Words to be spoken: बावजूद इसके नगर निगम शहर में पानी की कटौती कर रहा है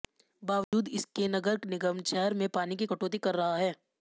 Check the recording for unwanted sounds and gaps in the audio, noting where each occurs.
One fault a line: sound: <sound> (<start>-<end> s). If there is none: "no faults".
sound: dropout (0.6-0.7 s)